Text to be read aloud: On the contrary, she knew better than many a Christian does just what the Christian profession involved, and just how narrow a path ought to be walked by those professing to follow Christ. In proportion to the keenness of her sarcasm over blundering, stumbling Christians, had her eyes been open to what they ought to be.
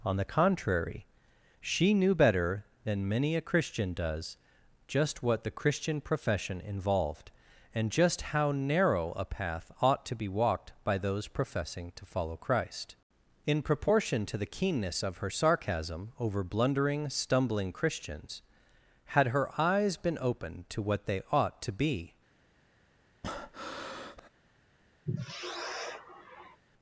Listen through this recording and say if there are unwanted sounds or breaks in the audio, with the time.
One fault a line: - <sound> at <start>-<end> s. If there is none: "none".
- breath at 23.2-24.3 s
- sigh at 25.0-26.6 s